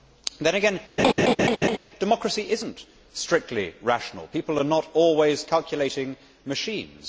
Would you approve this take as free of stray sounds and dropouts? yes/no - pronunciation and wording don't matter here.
no